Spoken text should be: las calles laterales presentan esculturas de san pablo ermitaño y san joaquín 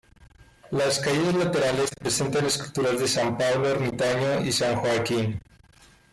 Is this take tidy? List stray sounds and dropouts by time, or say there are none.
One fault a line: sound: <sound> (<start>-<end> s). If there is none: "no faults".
no faults